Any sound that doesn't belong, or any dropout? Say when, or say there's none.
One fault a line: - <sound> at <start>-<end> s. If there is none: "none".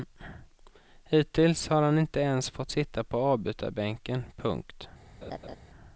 - laugh at 5.2-5.6 s